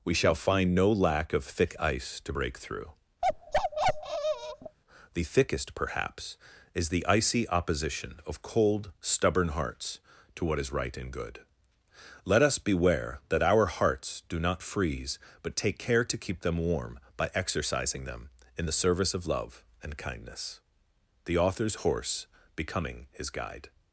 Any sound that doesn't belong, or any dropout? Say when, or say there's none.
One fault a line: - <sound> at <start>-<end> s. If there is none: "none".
- bark at 3.2-4.8 s